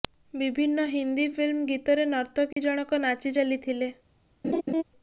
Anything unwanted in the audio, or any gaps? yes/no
yes